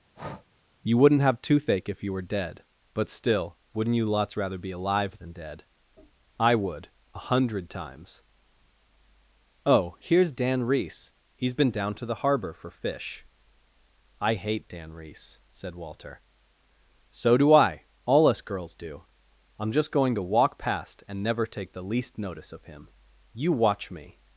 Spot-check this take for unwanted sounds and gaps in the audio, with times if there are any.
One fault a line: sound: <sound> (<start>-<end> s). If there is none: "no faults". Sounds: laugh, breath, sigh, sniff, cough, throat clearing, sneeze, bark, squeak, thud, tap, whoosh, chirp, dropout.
sound: breath (0.1-0.5 s)